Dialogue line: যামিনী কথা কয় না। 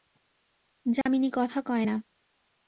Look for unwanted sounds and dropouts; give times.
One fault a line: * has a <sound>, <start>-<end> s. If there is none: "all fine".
* has a dropout, 1.0-1.1 s